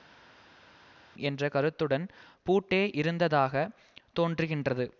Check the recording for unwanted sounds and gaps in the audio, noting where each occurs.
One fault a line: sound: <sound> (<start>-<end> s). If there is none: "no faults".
no faults